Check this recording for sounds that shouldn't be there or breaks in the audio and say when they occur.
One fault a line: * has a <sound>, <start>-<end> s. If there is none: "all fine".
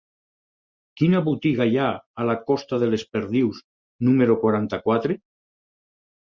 all fine